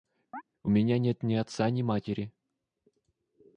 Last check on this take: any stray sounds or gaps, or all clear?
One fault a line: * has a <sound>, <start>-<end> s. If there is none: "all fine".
* has a chirp, 0.3-0.4 s